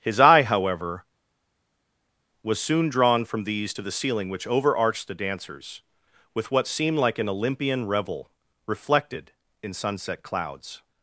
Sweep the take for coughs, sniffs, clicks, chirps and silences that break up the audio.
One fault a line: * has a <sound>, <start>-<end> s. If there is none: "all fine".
all fine